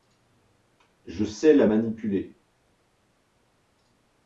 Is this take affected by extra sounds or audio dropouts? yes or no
no